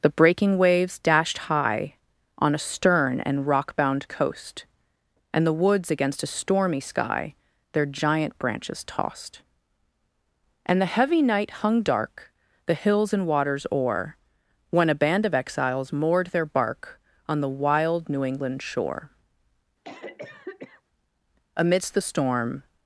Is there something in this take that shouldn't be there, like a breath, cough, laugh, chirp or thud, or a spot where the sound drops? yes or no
yes